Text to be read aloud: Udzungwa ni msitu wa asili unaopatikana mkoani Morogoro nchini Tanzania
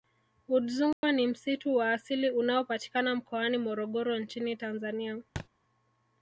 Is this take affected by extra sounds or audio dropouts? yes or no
yes